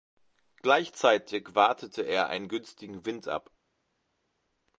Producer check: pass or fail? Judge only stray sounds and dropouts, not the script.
pass